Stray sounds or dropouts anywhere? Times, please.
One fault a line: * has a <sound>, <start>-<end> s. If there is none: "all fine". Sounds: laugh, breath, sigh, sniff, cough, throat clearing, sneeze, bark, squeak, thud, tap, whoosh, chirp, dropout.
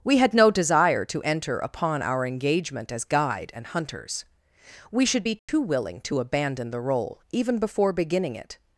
* has a dropout, 5.4-5.5 s